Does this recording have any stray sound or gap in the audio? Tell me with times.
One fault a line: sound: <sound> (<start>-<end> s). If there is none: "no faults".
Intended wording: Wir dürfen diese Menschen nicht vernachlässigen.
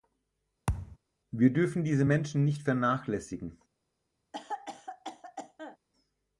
sound: thud (0.7-1.0 s)
sound: cough (4.3-5.8 s)